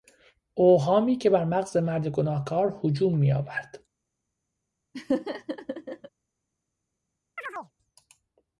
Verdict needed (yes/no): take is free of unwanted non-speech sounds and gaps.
no